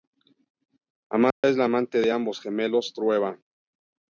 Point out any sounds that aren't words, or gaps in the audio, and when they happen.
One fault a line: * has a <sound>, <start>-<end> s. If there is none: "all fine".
* has a dropout, 1.3-1.4 s